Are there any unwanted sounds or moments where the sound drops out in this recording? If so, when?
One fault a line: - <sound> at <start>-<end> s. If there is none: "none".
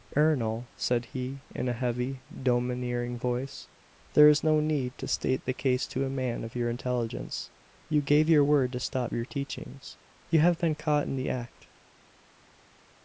none